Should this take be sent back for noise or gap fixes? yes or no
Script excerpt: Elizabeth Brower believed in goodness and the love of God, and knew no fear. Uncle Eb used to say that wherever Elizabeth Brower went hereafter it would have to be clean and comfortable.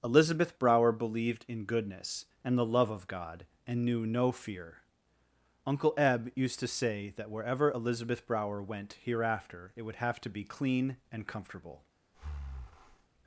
yes